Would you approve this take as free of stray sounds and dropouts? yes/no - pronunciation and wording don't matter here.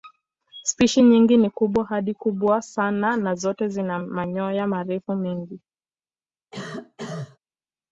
no